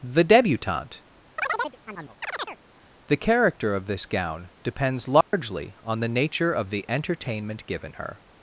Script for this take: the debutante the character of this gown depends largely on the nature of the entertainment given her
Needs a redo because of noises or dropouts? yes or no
yes